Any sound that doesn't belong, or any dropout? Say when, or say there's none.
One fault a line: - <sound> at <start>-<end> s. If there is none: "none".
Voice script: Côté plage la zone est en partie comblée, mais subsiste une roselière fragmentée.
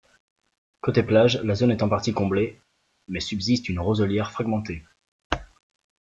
none